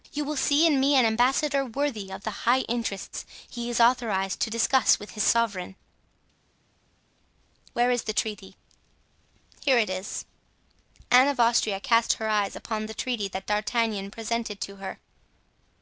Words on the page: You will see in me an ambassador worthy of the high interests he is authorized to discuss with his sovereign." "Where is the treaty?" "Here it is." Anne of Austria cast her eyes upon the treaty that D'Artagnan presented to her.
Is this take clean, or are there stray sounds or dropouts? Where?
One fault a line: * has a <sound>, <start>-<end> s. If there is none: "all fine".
all fine